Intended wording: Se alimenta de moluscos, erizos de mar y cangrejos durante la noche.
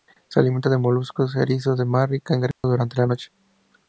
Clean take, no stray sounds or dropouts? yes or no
no